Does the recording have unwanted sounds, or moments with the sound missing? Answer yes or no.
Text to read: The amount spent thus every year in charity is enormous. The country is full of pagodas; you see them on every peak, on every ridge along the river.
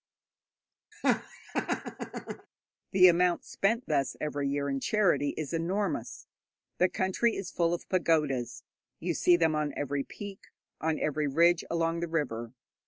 yes